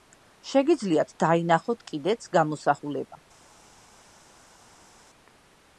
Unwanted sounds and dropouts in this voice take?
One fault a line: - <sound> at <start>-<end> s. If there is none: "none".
none